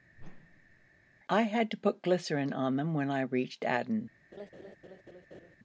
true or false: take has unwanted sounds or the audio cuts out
true